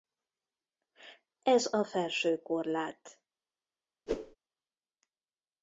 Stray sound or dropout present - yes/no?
yes